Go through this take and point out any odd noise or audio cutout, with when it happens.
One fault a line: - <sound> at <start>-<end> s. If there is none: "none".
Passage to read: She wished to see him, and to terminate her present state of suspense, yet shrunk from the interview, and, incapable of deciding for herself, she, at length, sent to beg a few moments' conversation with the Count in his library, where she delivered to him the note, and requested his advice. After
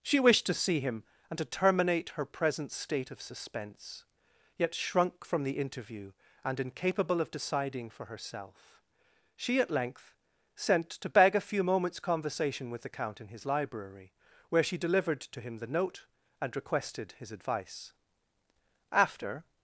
none